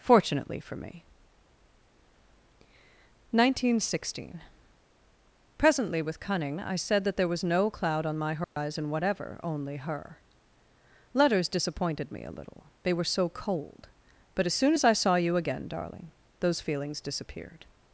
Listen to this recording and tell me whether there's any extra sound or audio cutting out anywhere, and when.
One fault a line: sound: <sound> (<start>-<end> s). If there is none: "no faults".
sound: dropout (8.4-8.6 s)